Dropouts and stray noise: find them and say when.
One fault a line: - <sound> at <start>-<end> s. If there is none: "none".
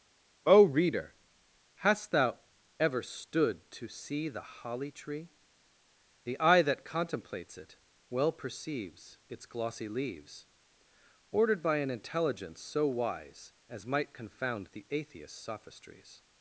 none